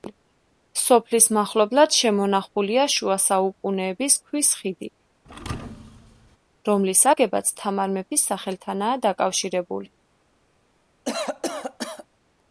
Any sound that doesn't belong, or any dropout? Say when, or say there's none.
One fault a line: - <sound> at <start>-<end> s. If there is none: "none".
- thud at 5.2-6.4 s
- cough at 11.0-12.1 s